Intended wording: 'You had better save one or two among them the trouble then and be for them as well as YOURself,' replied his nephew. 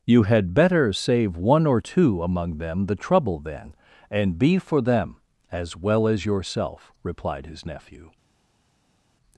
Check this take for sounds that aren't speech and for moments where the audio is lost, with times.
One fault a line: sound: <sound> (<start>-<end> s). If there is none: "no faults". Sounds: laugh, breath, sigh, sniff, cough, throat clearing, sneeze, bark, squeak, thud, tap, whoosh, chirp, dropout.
no faults